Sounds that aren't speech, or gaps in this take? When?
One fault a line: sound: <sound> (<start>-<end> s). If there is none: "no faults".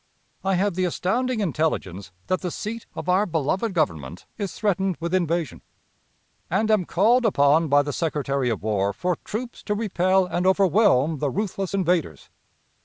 no faults